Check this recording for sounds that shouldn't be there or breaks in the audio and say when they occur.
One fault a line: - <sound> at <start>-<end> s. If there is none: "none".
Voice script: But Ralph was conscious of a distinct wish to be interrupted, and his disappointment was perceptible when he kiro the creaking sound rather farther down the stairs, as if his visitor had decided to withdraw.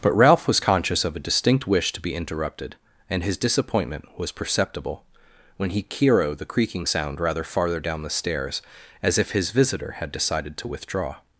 none